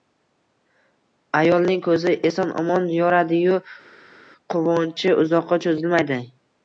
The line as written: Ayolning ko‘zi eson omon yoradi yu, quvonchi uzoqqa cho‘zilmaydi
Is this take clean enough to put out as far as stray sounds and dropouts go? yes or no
yes